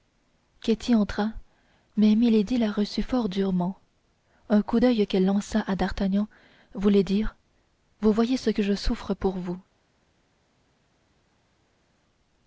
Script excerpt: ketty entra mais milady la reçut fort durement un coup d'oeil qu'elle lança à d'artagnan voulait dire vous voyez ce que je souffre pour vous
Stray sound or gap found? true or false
false